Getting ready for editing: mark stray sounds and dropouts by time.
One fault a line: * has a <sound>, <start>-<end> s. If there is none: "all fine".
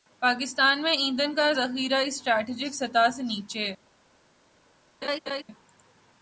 * has a laugh, 5.0-5.4 s